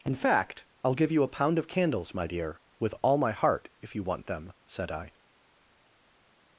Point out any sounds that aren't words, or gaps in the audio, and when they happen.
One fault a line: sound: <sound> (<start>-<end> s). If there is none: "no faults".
no faults